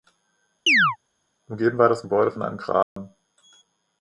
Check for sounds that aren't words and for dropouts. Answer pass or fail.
fail